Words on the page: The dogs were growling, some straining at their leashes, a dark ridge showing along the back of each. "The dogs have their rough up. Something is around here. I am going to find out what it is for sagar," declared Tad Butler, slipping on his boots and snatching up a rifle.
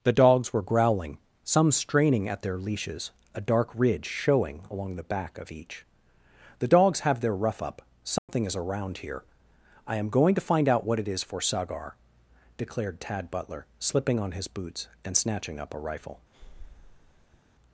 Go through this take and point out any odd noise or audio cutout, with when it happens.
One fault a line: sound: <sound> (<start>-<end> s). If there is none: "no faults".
sound: dropout (8.2-8.3 s)
sound: breath (16.3-17.4 s)